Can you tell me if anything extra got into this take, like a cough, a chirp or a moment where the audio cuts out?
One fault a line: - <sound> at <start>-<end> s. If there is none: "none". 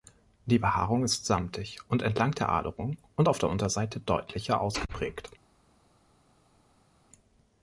none